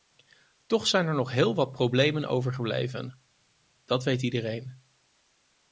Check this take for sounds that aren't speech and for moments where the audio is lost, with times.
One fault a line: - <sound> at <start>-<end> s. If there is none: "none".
none